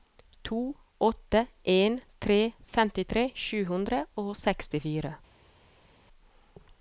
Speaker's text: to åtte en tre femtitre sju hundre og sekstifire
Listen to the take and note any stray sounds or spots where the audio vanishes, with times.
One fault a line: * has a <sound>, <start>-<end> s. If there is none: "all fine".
all fine